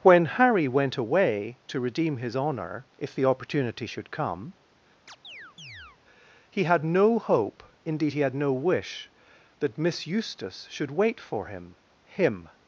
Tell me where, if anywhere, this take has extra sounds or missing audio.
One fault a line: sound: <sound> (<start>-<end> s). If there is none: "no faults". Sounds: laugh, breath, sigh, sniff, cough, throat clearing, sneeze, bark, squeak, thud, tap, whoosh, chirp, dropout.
sound: chirp (5.1-6.0 s)